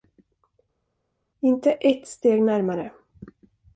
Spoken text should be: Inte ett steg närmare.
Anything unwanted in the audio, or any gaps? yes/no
no